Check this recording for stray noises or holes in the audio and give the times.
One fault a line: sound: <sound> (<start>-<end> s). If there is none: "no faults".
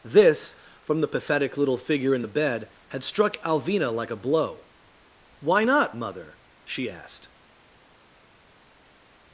no faults